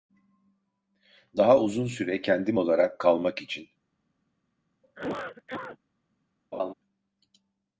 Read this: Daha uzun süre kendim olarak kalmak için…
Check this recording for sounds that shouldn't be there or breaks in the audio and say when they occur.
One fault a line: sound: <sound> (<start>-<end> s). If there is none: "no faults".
sound: cough (4.8-5.8 s)
sound: laugh (6.5-6.7 s)